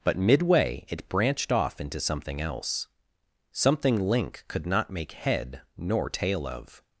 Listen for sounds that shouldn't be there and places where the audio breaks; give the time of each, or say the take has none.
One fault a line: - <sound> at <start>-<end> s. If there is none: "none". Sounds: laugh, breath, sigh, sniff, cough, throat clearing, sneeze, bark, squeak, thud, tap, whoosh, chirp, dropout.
none